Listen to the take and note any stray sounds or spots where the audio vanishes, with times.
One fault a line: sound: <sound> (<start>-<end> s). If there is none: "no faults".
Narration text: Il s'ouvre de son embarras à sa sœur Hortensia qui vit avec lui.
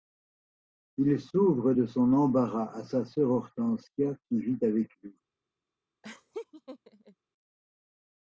sound: laugh (6.0-7.2 s)